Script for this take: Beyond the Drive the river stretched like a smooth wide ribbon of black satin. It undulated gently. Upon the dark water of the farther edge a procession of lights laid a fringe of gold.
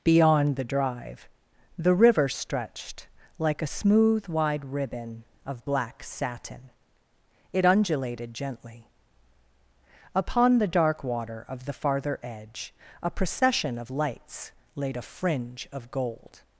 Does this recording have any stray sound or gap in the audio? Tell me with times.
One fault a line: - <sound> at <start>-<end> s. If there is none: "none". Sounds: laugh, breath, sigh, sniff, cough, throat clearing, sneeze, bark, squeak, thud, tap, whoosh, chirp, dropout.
none